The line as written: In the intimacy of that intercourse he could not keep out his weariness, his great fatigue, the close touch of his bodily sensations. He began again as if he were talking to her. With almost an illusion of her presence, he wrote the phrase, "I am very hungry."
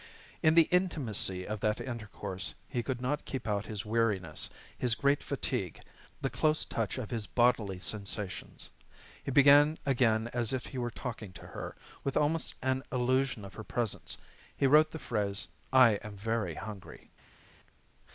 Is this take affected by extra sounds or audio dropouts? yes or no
no